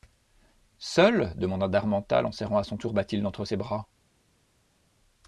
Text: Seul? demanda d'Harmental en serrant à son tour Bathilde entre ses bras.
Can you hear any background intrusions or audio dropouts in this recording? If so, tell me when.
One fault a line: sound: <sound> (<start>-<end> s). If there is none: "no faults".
no faults